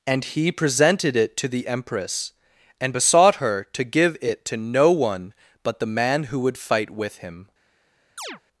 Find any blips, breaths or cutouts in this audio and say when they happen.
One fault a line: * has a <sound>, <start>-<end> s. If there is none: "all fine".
* has a chirp, 8.2-8.4 s